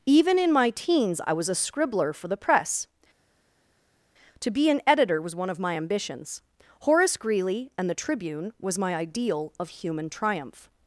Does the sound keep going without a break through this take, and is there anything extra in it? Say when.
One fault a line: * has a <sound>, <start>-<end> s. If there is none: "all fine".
all fine